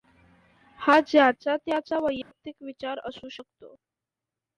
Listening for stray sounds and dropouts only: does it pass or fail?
fail